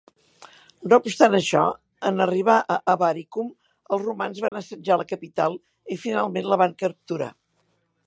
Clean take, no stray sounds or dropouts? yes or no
no